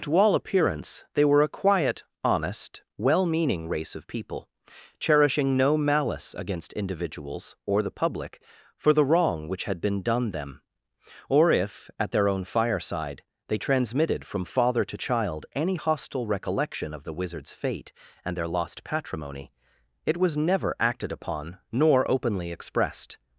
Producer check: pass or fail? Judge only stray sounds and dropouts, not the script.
pass